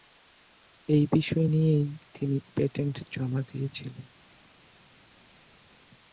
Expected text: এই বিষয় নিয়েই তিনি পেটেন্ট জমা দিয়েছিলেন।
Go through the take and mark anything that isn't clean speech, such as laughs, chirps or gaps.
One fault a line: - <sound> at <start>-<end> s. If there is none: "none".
none